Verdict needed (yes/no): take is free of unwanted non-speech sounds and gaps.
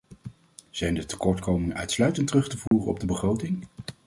no